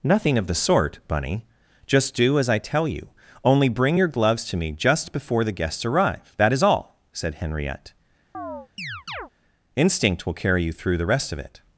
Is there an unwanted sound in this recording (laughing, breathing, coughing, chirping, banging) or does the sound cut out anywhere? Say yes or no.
yes